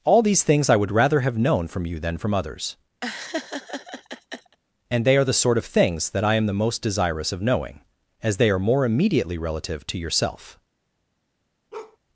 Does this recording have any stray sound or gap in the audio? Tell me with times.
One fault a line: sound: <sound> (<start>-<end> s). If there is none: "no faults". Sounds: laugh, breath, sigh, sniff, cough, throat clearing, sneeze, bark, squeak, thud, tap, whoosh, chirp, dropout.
sound: laugh (3.0-4.6 s)
sound: bark (11.7-12.0 s)